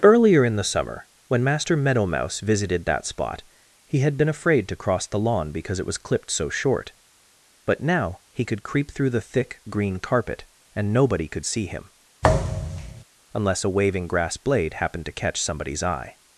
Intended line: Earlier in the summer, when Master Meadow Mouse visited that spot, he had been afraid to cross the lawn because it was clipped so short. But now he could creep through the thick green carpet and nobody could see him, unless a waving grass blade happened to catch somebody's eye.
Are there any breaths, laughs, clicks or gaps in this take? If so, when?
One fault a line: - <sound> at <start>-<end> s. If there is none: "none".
- thud at 12.2-13.0 s